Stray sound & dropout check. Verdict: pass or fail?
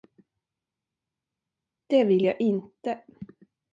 pass